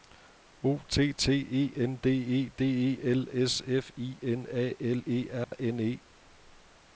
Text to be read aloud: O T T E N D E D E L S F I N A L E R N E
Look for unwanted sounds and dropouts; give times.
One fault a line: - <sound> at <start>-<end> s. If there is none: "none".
- dropout at 5.4-5.5 s